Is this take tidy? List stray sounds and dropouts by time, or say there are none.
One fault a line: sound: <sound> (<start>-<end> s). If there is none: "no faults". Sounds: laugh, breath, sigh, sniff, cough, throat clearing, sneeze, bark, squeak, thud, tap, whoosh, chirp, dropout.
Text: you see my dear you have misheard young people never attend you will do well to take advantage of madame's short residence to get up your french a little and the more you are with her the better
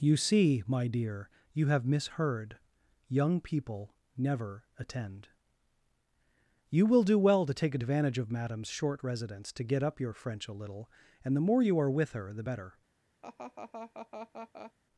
sound: laugh (13.2-14.7 s)